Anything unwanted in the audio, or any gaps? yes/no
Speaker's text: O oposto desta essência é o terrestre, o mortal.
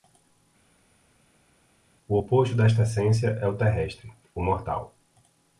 no